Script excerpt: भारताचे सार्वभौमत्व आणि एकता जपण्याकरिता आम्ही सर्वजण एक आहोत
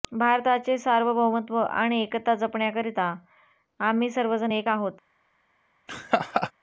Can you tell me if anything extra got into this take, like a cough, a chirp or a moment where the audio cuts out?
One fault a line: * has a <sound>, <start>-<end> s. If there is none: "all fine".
* has a laugh, 5.9-6.5 s